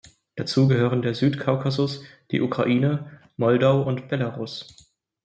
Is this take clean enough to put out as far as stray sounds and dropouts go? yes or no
yes